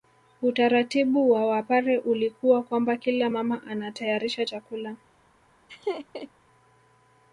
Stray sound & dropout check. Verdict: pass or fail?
fail